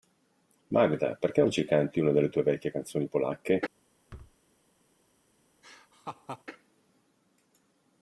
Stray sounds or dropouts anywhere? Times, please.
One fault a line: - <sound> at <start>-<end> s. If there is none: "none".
- thud at 4.1-4.4 s
- laugh at 5.6-6.4 s